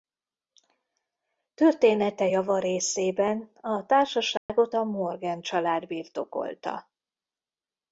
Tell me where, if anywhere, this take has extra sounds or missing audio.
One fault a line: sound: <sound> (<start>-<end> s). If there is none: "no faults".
sound: dropout (4.4-4.5 s)